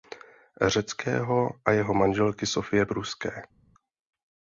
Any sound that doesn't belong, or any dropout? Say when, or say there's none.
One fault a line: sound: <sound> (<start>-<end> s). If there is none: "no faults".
no faults